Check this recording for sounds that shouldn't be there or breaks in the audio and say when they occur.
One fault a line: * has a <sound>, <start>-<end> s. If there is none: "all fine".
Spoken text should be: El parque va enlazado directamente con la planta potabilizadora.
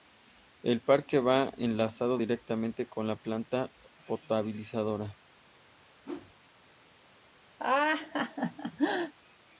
* has a whoosh, 6.0-6.4 s
* has a laugh, 7.6-9.1 s